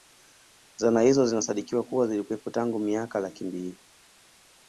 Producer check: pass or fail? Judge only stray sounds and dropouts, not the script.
pass